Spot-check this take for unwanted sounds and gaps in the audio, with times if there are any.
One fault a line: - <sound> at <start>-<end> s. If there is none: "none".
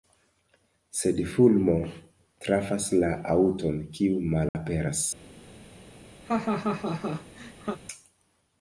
- dropout at 4.5-4.5 s
- laugh at 6.2-7.8 s